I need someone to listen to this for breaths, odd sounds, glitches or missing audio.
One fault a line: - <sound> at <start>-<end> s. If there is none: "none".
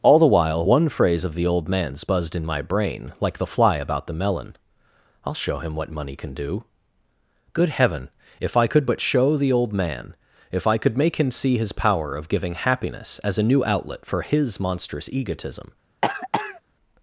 - cough at 16.0-16.6 s